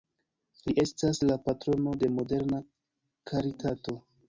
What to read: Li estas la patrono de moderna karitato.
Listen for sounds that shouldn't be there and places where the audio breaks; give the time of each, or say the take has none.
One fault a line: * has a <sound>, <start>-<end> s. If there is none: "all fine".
all fine